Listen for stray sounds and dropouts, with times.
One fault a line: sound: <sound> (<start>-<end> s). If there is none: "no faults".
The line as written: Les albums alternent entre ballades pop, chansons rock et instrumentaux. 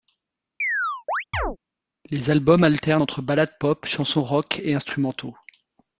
sound: chirp (0.6-1.6 s)